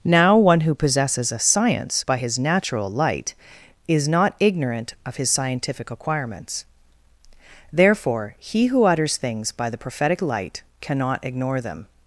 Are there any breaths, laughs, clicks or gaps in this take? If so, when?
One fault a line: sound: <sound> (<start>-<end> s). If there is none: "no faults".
no faults